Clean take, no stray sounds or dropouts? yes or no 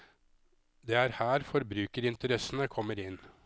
yes